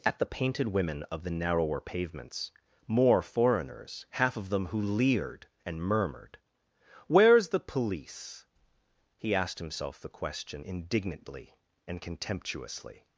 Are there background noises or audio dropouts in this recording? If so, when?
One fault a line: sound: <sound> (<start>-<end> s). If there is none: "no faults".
no faults